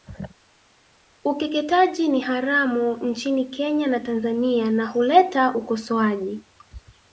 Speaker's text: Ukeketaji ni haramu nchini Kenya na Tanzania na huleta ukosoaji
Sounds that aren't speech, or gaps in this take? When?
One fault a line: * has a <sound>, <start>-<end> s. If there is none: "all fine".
all fine